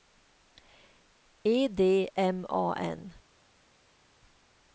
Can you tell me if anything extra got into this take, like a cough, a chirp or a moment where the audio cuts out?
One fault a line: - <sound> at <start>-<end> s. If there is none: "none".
none